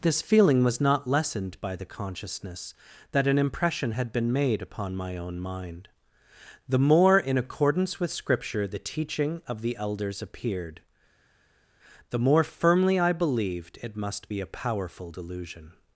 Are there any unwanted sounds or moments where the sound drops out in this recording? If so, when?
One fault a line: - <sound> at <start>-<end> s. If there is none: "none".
none